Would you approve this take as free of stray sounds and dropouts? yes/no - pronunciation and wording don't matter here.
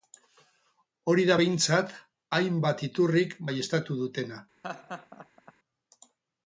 no